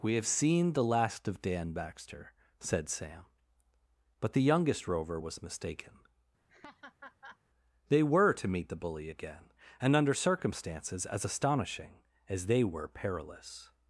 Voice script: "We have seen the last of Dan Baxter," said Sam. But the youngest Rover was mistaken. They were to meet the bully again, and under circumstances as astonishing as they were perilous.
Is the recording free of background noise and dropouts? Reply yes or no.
no